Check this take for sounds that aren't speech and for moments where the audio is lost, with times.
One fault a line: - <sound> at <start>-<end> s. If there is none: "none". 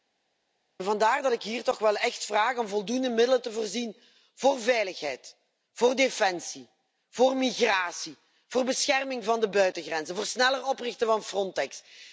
none